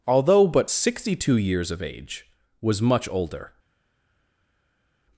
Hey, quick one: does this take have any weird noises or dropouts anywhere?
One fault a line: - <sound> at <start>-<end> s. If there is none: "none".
none